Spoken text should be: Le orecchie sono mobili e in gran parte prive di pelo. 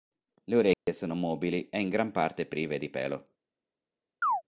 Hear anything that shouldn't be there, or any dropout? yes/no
yes